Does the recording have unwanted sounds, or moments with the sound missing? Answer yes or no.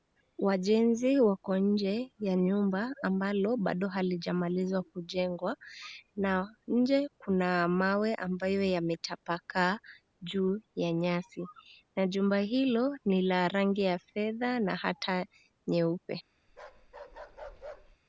yes